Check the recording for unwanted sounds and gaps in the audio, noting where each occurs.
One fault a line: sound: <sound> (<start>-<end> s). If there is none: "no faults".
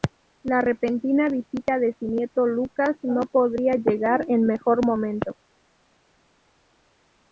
no faults